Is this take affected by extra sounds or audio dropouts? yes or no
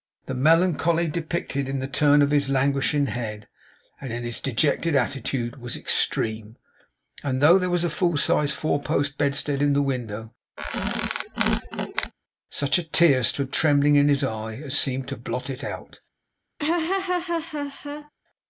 yes